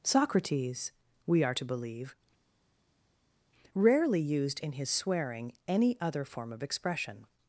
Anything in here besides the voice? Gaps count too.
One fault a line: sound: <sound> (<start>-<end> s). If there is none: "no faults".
no faults